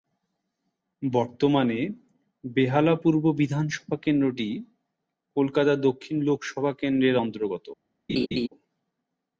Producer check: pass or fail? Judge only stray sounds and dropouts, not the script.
fail